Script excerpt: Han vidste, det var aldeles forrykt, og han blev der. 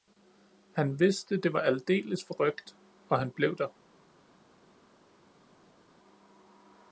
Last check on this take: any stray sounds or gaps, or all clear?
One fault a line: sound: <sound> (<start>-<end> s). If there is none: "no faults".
no faults